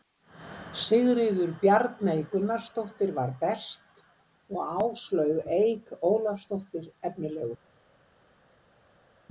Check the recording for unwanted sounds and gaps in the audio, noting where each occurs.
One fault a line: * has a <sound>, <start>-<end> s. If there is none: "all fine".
all fine